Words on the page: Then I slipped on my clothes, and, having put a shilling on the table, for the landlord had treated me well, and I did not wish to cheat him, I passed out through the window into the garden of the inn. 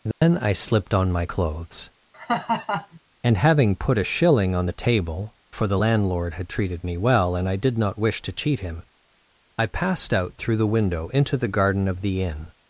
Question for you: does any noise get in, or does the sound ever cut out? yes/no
yes